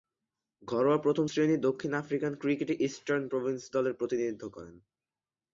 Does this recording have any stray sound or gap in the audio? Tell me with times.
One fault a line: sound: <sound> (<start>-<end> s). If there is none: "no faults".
no faults